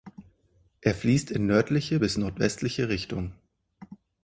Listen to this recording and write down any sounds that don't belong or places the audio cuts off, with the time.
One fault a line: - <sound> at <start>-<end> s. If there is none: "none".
none